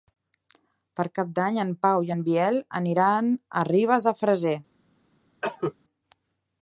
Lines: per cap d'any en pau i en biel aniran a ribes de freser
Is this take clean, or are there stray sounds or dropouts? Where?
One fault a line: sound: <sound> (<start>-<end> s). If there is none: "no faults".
sound: cough (5.4-5.7 s)